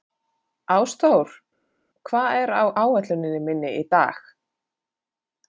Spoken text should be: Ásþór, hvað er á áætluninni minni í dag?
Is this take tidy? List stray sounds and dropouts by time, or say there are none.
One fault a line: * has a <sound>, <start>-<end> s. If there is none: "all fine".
all fine